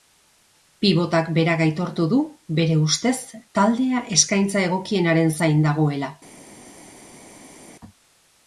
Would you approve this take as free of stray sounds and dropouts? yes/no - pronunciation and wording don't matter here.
yes